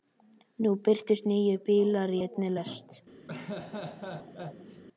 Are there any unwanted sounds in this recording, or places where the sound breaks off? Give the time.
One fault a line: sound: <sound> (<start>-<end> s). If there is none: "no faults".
sound: laugh (3.3-4.8 s)